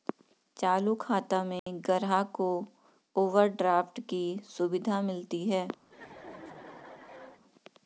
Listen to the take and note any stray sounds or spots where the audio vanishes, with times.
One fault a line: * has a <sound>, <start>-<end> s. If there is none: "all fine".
* has a dropout, 1.6-1.7 s
* has a laugh, 5.9-7.4 s